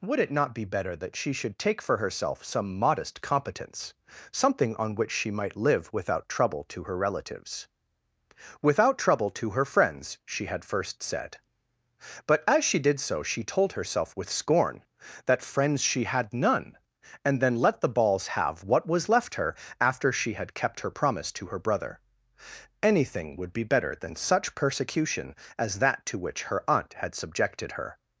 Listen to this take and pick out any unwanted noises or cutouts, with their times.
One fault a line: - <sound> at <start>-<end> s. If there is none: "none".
none